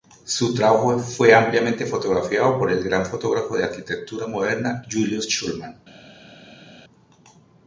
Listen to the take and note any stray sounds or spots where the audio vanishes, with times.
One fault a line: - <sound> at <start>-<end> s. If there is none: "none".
none